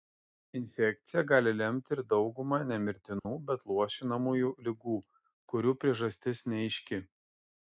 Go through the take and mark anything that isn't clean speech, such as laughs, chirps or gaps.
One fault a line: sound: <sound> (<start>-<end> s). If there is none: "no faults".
sound: dropout (3.2-3.3 s)